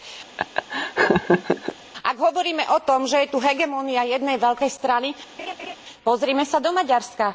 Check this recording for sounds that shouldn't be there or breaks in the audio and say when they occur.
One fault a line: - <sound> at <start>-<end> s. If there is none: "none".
- laugh at 0.4-1.8 s
- laugh at 5.4-5.8 s